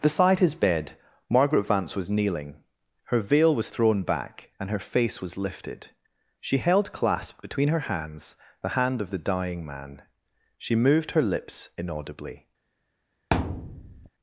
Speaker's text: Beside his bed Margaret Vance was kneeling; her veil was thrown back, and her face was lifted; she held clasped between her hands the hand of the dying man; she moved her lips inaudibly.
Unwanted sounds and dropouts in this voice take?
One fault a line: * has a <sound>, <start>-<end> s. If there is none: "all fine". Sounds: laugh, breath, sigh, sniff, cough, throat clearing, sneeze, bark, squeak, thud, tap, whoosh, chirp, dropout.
* has a thud, 13.3-14.1 s